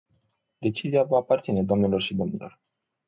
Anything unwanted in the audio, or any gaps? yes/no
no